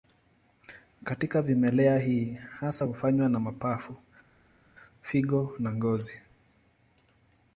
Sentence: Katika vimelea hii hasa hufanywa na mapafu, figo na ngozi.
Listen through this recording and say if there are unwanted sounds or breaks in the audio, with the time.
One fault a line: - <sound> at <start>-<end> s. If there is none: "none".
none